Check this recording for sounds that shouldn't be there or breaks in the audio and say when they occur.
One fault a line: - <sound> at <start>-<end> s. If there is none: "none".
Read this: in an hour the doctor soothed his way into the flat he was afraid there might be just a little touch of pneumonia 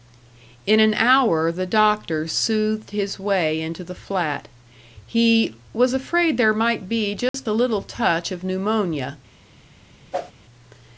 - dropout at 7.3-7.3 s
- whoosh at 10.1-10.3 s